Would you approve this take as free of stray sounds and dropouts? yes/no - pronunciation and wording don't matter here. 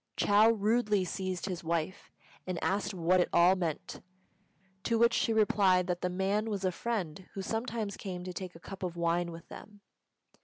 yes